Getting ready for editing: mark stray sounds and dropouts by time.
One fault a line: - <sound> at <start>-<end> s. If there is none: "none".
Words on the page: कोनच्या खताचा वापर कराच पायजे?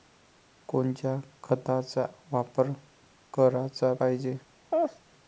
- laugh at 4.7-5.0 s